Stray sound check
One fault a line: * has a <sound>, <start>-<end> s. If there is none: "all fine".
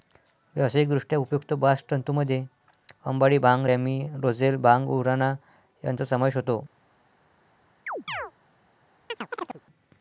* has a chirp, 7.9-8.3 s
* has a chirp, 9.1-9.6 s